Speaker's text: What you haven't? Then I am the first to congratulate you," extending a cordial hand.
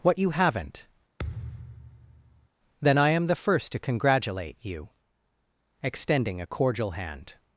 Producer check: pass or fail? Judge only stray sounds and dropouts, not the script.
fail